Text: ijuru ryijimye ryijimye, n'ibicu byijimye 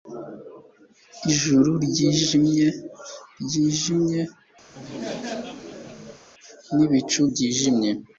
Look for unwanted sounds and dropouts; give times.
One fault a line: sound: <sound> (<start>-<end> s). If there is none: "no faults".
sound: laugh (4.7-6.2 s)